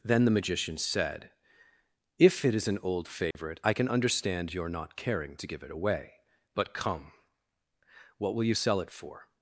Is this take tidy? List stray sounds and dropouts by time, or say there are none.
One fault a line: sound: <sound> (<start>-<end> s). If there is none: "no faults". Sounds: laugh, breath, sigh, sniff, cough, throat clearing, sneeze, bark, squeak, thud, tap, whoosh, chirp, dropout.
sound: dropout (3.3-3.3 s)